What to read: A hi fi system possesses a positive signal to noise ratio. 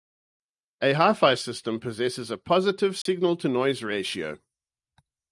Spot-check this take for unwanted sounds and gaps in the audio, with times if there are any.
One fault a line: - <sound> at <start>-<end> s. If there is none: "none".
- dropout at 3.0-3.1 s